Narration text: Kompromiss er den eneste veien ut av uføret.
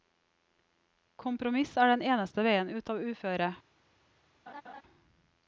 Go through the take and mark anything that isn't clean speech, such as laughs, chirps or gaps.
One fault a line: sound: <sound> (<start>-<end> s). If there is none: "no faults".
sound: laugh (4.5-4.8 s)